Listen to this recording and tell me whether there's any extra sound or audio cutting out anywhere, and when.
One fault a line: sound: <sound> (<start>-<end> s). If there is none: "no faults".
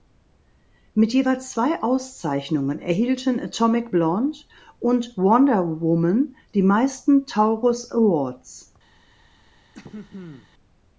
sound: throat clearing (9.7-10.5 s)